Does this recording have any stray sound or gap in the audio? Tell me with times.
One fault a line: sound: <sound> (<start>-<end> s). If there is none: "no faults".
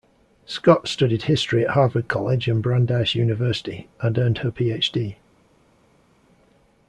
no faults